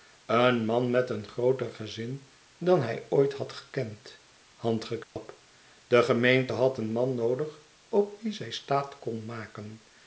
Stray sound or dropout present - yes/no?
yes